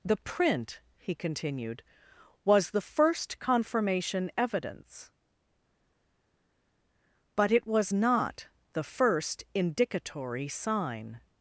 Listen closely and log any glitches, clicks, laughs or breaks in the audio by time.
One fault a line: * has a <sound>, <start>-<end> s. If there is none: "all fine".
all fine